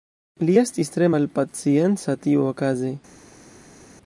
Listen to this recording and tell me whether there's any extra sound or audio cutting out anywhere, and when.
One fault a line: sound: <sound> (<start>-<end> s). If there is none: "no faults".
no faults